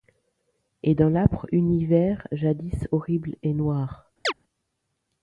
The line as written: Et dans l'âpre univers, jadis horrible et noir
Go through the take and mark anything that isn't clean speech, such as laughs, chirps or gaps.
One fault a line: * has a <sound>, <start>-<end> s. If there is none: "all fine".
* has a chirp, 4.2-4.3 s